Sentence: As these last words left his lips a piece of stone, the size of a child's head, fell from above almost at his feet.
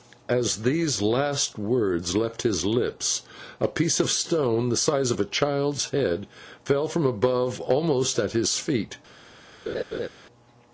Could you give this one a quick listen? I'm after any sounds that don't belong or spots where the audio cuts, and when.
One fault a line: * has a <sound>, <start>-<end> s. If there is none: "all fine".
* has a laugh, 9.7-10.1 s